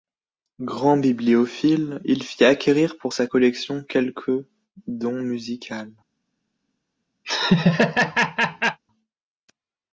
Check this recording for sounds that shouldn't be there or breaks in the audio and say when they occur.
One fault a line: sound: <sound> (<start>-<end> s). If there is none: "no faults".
sound: laugh (7.2-8.8 s)